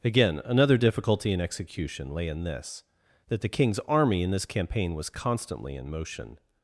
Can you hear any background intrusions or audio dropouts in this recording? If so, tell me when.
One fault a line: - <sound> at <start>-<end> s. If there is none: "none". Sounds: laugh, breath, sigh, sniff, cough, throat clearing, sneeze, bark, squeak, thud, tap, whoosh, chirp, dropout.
none